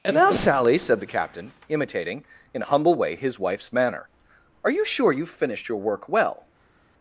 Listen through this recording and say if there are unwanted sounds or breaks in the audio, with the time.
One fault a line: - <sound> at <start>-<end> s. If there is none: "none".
none